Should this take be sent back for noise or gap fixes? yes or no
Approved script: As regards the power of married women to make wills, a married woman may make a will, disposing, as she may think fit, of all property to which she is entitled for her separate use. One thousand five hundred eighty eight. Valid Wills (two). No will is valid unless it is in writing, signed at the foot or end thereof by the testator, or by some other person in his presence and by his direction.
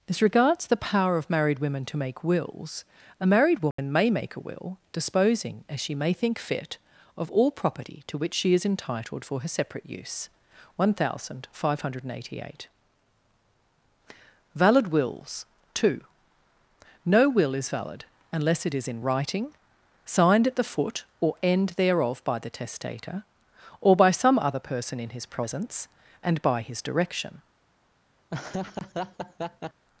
yes